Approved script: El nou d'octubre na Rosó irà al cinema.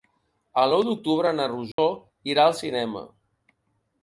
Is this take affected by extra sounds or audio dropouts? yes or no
yes